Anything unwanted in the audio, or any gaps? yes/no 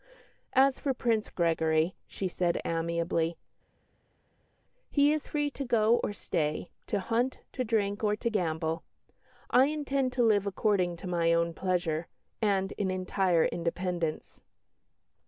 no